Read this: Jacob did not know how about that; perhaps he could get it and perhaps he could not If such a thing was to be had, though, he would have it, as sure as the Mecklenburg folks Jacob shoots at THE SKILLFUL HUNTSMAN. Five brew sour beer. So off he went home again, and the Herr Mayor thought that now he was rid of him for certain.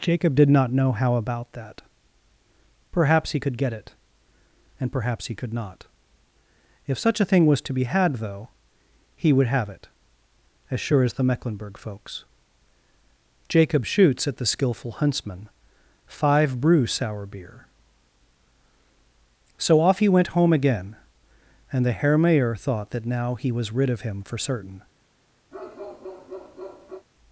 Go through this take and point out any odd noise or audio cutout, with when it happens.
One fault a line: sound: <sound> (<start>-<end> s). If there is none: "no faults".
sound: bark (25.5-27.1 s)